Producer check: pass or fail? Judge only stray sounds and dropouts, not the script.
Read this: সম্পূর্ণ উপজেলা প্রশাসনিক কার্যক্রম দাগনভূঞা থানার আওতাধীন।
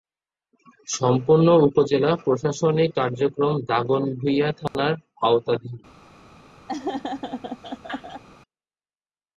fail